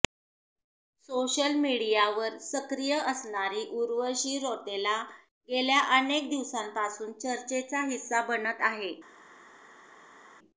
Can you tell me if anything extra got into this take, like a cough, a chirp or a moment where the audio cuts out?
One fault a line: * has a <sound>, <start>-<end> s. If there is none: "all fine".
all fine